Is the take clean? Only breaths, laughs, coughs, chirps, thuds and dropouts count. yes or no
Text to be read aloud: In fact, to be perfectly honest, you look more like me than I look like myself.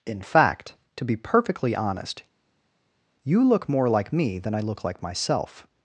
yes